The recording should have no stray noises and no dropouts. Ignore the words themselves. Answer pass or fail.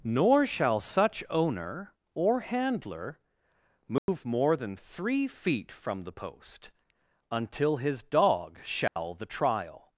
fail